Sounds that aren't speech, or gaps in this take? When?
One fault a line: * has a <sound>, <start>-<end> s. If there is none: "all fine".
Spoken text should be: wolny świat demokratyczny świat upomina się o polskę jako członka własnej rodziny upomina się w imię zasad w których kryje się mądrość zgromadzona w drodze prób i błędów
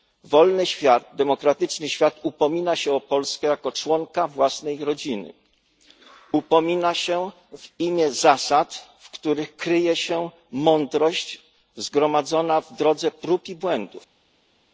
all fine